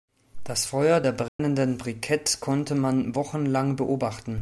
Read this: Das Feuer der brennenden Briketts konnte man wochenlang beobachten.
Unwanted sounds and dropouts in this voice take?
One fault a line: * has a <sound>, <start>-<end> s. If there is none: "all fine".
* has a dropout, 1.3-1.4 s